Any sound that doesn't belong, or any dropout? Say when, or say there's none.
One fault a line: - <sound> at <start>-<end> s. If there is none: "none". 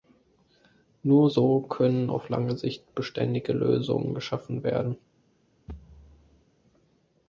- thud at 5.7-6.5 s